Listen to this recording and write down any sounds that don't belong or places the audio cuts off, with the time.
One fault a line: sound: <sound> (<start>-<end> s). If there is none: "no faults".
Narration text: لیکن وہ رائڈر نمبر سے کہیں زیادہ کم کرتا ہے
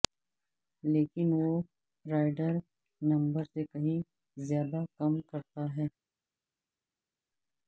no faults